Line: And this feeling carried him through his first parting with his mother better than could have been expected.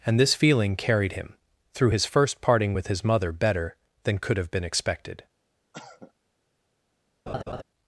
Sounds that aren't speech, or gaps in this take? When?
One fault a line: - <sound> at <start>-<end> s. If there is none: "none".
- cough at 5.7-6.1 s
- laugh at 7.3-7.6 s